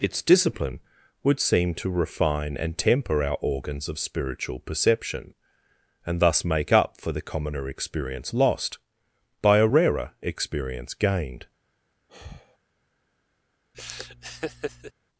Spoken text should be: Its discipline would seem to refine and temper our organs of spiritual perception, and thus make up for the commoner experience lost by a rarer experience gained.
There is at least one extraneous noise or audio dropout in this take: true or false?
true